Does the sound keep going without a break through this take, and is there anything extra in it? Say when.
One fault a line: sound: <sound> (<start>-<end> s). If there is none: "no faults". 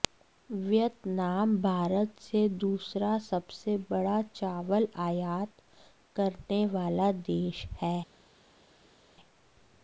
no faults